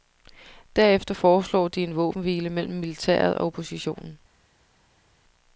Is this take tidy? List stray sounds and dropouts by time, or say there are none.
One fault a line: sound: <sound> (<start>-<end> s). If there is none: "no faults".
no faults